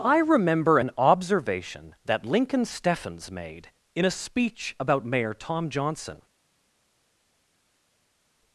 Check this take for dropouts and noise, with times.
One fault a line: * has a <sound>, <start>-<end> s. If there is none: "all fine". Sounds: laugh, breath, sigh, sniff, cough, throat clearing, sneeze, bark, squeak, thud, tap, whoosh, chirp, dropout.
all fine